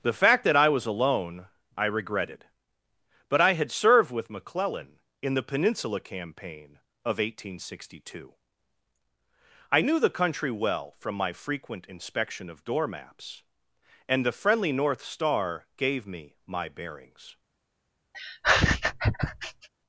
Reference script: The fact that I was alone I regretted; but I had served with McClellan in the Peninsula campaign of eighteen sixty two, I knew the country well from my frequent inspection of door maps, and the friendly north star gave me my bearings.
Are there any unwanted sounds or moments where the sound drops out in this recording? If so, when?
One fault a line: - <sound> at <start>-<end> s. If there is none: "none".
- laugh at 18.1-19.7 s